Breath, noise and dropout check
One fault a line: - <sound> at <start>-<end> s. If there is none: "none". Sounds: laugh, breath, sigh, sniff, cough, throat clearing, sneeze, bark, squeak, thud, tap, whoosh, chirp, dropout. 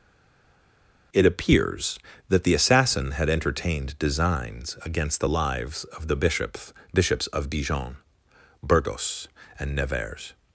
none